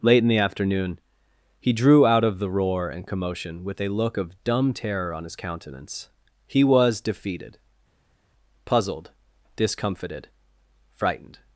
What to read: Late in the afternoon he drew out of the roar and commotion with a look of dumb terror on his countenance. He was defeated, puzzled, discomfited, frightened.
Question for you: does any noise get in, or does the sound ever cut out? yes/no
no